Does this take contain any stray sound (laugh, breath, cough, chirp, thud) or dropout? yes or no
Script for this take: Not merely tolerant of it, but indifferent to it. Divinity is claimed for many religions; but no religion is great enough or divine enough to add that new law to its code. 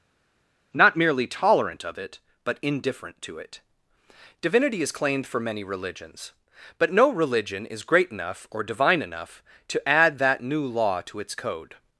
no